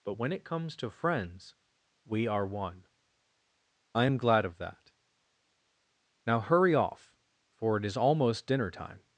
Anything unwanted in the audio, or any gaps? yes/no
no